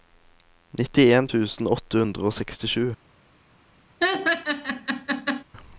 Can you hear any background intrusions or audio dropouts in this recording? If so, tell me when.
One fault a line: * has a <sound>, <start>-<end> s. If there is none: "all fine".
* has a laugh, 4.0-5.4 s